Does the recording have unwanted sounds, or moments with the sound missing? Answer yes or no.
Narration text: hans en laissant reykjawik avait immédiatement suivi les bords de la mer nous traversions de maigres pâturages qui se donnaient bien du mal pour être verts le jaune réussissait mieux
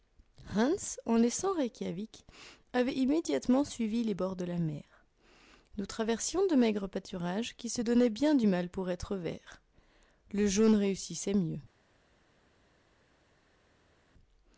no